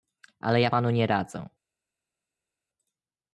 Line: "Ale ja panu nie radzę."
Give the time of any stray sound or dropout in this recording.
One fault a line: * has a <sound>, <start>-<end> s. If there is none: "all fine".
all fine